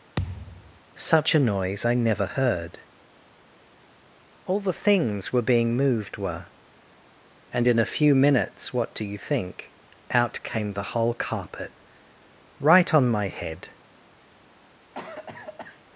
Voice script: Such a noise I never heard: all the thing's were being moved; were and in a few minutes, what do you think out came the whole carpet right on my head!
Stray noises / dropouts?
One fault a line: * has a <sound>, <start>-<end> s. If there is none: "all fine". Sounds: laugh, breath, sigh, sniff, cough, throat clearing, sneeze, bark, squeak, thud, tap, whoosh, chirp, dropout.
* has a thud, 0.2-0.8 s
* has a cough, 14.9-15.8 s